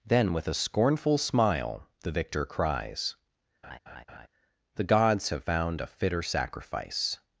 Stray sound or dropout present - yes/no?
yes